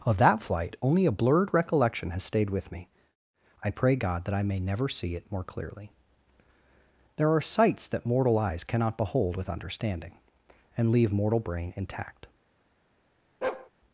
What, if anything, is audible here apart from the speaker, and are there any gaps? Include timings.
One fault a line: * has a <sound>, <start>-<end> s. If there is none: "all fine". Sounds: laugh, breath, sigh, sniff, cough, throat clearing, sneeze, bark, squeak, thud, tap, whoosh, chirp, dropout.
* has a bark, 13.4-13.7 s